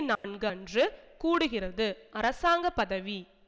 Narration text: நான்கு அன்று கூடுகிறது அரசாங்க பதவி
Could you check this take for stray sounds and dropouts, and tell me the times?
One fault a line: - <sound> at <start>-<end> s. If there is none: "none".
- dropout at 0.1-0.2 s